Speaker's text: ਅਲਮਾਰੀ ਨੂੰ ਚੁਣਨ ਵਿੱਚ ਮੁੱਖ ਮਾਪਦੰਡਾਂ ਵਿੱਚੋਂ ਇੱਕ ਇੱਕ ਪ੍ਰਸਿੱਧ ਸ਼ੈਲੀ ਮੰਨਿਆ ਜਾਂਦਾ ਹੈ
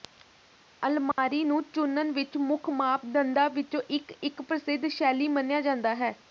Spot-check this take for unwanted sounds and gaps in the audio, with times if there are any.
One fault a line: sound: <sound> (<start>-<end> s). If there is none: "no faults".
sound: dropout (1.1-1.2 s)